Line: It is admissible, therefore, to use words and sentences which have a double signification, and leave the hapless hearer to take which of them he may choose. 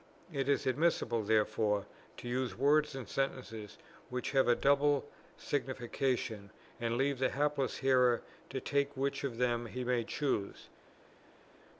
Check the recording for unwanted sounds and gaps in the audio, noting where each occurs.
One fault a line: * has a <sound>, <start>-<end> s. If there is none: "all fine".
all fine